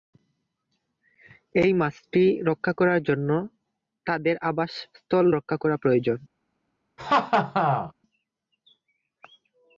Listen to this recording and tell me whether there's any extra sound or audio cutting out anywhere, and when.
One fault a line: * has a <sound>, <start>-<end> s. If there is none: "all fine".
* has a laugh, 7.0-7.9 s